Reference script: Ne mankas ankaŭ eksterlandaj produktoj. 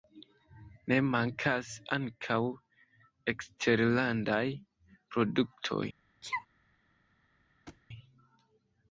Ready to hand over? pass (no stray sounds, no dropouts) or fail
fail